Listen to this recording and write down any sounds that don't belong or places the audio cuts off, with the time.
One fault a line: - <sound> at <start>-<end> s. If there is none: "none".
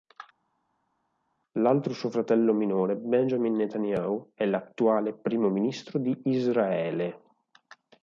none